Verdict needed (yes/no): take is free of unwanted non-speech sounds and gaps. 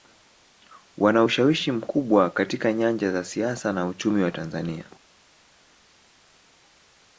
yes